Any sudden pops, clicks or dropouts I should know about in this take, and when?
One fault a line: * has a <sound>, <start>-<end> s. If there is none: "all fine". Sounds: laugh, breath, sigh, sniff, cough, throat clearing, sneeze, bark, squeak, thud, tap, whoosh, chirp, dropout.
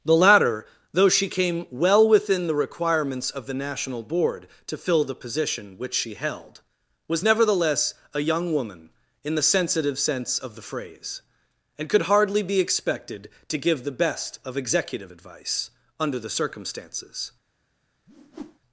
* has a whoosh, 18.1-18.6 s